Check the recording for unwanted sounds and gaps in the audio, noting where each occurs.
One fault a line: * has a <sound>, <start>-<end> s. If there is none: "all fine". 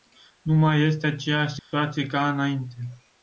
* has a dropout, 1.6-1.7 s